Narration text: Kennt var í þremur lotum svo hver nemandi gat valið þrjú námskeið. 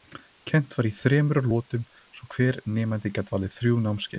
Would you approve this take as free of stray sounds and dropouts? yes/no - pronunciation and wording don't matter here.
yes